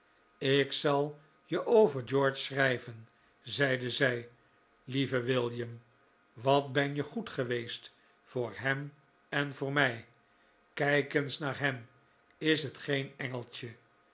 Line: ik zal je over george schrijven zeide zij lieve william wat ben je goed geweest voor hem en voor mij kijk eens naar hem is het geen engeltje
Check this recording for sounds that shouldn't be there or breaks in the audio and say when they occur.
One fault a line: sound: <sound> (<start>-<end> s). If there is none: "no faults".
no faults